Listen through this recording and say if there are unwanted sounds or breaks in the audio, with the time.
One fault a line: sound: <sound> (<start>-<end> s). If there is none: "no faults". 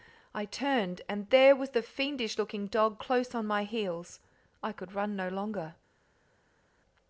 no faults